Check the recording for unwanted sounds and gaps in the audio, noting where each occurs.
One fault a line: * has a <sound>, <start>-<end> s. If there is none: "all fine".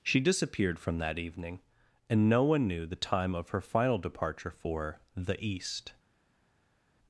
all fine